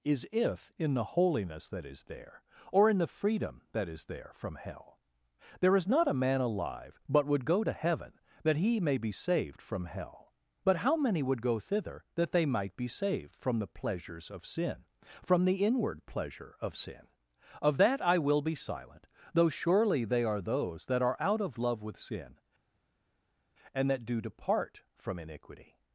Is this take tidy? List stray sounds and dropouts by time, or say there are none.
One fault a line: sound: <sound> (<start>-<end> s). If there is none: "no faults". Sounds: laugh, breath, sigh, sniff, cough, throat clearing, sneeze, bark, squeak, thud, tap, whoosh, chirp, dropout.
no faults